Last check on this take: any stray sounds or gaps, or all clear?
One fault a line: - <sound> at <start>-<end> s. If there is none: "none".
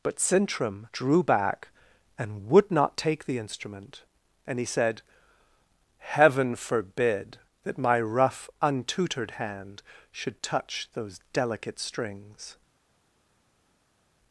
none